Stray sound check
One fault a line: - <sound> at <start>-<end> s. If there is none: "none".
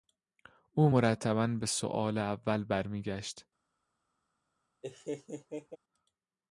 - laugh at 4.8-5.8 s